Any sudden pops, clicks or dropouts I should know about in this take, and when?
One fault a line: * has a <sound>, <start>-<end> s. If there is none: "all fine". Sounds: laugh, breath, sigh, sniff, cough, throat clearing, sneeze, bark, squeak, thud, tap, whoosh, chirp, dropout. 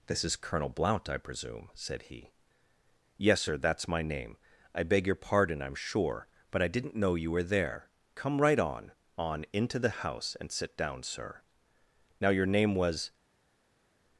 all fine